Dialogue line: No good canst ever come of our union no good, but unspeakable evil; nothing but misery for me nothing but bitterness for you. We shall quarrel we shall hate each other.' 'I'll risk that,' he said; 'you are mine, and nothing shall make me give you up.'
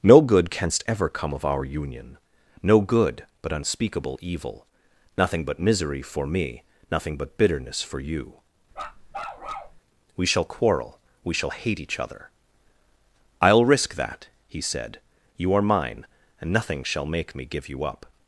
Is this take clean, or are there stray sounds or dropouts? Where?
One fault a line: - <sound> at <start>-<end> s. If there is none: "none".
- bark at 8.7-9.8 s